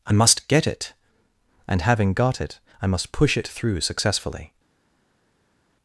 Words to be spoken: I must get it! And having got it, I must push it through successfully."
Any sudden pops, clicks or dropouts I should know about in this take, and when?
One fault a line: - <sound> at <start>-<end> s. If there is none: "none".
none